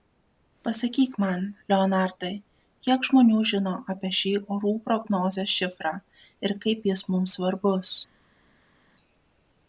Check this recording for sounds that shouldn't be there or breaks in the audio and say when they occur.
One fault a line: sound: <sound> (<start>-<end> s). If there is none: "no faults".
no faults